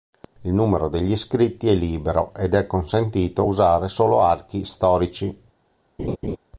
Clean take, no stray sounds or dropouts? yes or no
no